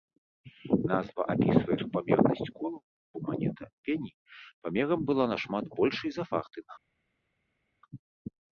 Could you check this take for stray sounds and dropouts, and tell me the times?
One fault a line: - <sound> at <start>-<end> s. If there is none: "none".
none